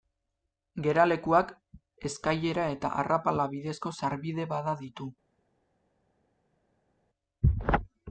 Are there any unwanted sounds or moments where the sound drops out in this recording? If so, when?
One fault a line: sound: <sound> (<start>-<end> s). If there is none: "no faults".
no faults